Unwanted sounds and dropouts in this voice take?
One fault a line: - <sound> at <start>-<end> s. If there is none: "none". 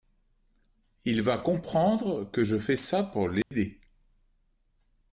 - dropout at 3.4-3.5 s